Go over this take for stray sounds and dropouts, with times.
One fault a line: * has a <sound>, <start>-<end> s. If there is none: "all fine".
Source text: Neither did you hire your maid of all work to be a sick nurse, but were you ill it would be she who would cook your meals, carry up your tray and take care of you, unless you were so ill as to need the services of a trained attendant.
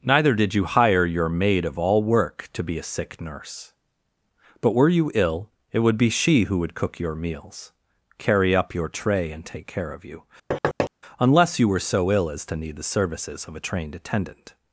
* has a thud, 10.5-10.9 s